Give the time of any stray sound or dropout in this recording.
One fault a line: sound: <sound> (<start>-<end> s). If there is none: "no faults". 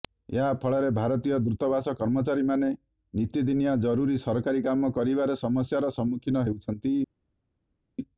no faults